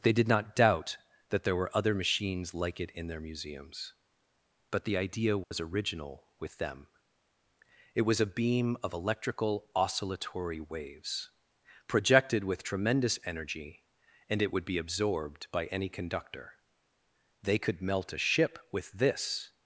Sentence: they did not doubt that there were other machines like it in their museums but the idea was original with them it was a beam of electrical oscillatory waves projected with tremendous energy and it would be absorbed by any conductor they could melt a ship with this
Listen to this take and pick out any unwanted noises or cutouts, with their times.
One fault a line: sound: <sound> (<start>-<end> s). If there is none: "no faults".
sound: dropout (5.4-5.5 s)